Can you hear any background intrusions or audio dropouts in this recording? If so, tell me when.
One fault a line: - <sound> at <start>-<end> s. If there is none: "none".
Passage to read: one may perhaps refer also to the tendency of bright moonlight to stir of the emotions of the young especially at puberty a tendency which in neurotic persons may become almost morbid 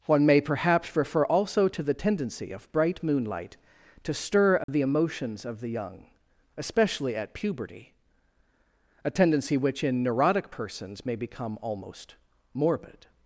- dropout at 4.6-4.7 s